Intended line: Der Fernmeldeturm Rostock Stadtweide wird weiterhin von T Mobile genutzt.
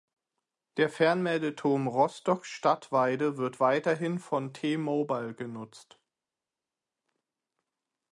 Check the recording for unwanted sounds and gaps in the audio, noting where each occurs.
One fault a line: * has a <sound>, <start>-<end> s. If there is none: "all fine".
all fine